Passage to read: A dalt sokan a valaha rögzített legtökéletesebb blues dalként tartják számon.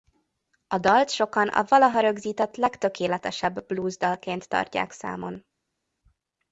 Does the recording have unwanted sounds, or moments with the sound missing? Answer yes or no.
no